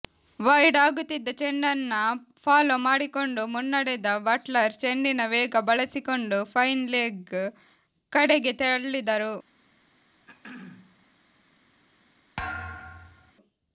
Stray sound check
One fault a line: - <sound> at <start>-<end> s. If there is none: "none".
- throat clearing at 10.3-11.1 s
- thud at 12.4-13.3 s